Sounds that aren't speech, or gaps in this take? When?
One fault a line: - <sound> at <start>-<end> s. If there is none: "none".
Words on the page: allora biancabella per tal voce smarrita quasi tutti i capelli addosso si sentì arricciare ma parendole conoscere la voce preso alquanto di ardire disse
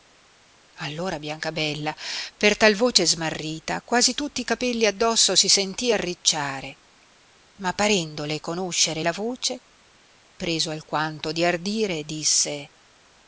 none